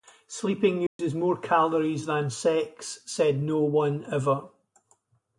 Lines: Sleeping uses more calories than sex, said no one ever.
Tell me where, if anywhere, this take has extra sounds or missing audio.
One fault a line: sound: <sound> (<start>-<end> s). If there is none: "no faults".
sound: dropout (0.9-1.0 s)